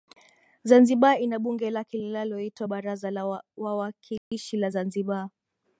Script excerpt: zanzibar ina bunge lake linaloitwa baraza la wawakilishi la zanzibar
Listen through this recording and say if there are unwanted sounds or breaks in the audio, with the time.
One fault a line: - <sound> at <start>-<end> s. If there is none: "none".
- dropout at 4.2-4.3 s